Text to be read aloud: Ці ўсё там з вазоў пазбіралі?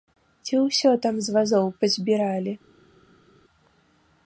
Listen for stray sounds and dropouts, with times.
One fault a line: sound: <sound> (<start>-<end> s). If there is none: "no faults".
no faults